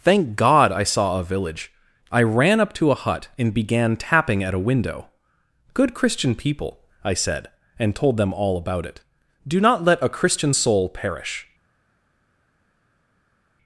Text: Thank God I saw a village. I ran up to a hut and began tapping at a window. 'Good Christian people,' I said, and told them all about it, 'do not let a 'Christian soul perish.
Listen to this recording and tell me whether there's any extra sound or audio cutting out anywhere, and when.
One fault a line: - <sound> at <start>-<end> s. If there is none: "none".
none